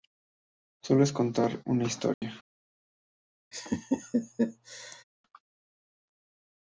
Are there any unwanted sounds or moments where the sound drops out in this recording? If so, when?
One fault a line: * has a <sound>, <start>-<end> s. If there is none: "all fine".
* has a dropout, 2.1-2.2 s
* has a laugh, 3.5-5.0 s